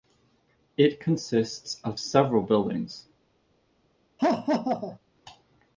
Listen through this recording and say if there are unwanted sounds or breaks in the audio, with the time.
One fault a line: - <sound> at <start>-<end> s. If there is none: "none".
- laugh at 4.2-5.0 s